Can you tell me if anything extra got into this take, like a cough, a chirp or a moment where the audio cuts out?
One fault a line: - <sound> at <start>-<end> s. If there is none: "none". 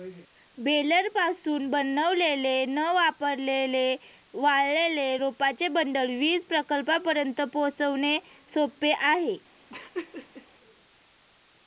- laugh at 9.7-10.5 s